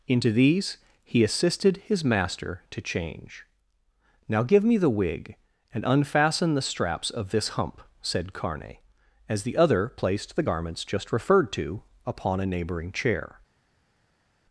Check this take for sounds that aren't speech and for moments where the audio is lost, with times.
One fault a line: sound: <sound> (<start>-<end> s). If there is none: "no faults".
no faults